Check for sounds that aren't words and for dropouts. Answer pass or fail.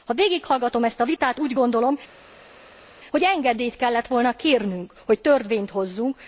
pass